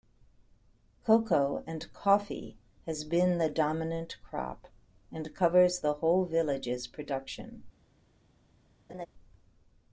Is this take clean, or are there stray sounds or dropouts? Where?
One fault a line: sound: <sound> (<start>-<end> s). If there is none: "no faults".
sound: laugh (8.9-9.1 s)